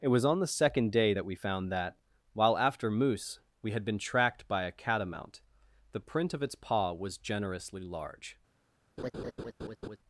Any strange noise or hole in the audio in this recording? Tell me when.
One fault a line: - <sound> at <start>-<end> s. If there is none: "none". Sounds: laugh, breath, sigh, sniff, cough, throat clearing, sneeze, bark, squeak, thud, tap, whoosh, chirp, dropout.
- laugh at 9.0-10.0 s